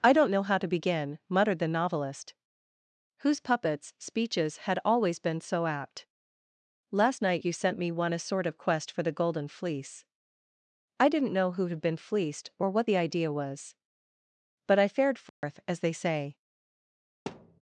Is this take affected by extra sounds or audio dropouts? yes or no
yes